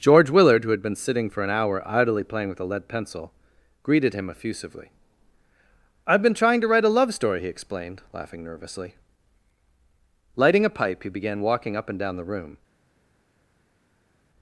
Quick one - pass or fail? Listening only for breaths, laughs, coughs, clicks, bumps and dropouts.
pass